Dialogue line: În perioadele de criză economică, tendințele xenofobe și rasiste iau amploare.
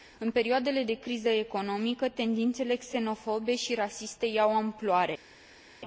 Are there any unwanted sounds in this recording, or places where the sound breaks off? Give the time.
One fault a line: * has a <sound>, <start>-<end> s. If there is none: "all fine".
all fine